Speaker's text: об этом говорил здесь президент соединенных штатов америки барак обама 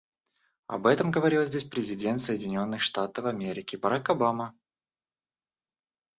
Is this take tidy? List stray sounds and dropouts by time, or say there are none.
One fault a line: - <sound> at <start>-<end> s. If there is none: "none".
none